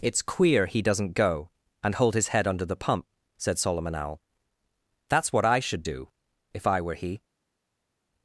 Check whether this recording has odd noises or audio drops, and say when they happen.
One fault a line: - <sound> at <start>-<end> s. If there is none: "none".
none